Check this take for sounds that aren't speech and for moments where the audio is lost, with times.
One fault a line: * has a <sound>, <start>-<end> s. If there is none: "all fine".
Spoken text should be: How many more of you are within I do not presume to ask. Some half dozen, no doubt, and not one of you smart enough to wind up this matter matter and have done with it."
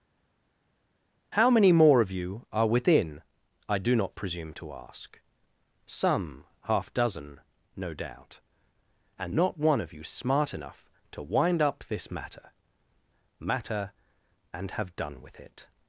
all fine